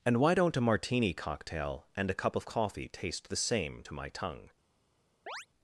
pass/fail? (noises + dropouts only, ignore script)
fail